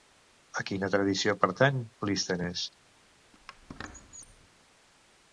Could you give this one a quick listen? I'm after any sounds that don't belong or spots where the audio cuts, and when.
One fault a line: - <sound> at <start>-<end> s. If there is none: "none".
- squeak at 3.3-4.5 s